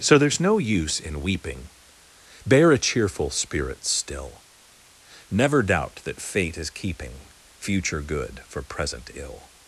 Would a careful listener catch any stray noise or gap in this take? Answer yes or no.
no